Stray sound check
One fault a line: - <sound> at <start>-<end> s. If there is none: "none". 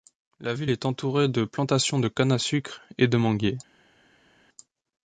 none